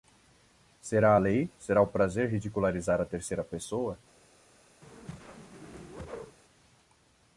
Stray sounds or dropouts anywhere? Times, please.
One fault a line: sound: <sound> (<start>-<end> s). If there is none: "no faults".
sound: whoosh (4.8-6.4 s)